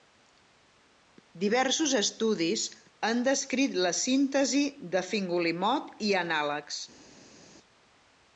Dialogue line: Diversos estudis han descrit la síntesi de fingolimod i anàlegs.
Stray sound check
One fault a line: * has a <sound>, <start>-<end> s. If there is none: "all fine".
all fine